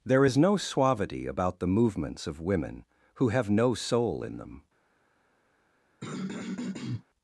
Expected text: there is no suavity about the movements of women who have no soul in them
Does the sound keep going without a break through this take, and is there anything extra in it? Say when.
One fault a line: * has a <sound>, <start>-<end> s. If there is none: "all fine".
* has a throat clearing, 6.0-7.0 s